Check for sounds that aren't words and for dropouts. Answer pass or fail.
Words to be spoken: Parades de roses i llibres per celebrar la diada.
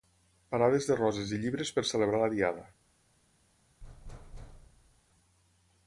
fail